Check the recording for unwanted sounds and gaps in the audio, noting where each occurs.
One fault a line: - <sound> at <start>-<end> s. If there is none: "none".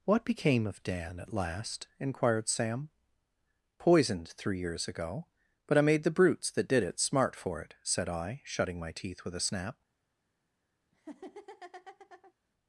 - laugh at 10.9-12.3 s